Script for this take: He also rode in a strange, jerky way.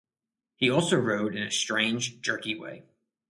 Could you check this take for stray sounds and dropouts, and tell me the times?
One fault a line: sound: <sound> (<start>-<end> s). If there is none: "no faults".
no faults